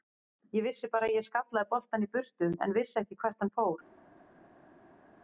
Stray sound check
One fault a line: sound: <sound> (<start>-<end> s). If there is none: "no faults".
no faults